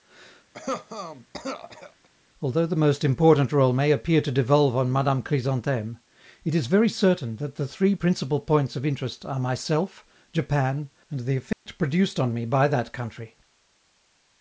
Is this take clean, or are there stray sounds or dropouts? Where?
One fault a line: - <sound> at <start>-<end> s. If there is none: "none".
- cough at 0.5-2.1 s
- dropout at 11.5-11.7 s